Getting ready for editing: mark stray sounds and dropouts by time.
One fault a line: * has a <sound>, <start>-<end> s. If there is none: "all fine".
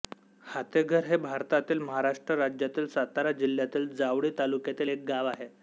all fine